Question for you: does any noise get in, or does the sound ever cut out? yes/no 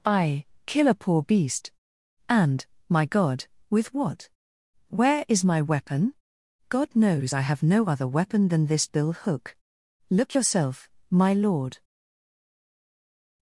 no